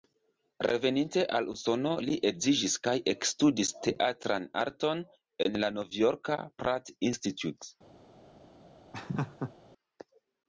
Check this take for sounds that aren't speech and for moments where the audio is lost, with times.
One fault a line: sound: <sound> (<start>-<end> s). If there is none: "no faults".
sound: laugh (8.9-9.5 s)